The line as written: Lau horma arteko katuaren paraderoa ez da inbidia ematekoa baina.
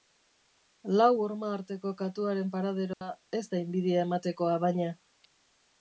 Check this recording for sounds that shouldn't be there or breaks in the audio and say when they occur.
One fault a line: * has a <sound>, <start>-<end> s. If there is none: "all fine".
* has a dropout, 2.9-3.0 s